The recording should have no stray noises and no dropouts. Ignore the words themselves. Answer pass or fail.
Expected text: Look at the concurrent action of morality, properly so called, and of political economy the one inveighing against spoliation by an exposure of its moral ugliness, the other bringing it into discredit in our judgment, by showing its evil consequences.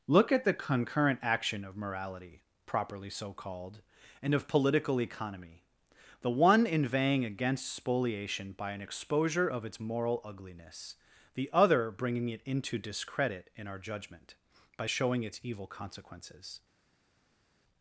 pass